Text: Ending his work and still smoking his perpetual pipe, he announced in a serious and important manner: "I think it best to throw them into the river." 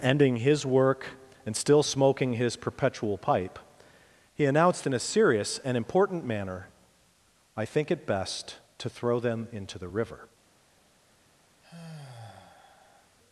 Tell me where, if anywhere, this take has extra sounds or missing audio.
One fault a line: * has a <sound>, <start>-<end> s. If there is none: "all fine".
* has a sigh, 11.6-13.2 s